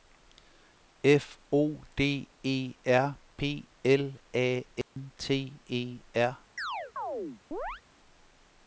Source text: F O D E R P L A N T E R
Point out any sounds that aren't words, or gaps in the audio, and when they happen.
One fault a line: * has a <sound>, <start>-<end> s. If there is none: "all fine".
* has a dropout, 4.8-5.0 s
* has a chirp, 6.6-7.8 s